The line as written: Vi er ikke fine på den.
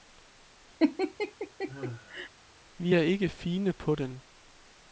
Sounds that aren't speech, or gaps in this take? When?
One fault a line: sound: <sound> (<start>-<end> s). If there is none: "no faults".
sound: laugh (0.8-2.3 s)